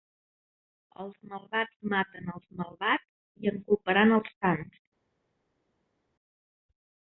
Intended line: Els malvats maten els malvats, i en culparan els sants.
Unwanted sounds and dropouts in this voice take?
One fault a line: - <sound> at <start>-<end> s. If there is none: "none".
none